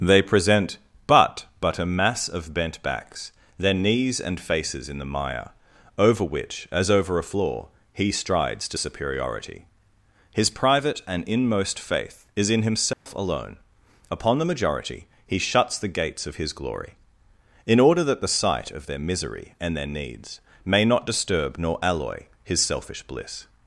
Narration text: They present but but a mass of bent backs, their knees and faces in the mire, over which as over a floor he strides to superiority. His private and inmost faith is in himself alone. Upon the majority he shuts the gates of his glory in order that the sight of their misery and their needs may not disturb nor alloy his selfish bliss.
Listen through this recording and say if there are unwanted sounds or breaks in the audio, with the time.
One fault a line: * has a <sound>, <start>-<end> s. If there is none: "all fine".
* has a dropout, 12.9-13.1 s